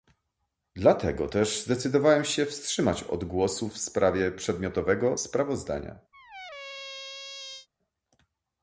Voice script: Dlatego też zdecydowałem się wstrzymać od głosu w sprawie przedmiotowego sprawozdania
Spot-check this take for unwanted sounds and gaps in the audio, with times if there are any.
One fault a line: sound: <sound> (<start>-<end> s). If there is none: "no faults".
sound: squeak (6.1-7.7 s)